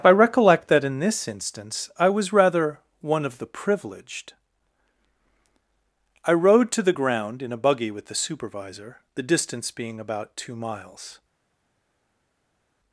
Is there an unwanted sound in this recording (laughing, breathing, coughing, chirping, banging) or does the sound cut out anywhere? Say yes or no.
no